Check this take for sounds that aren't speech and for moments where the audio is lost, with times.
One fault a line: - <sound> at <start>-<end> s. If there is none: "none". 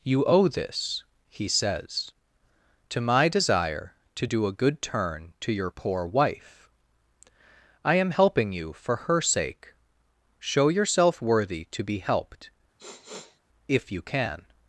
- sniff at 12.8-13.4 s